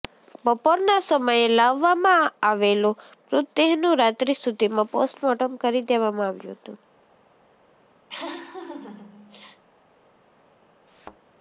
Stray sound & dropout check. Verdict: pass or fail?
fail